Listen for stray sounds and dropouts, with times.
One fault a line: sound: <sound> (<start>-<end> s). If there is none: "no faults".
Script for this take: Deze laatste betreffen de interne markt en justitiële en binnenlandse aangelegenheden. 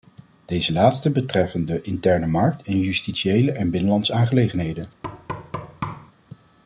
sound: thud (5.0-6.1 s)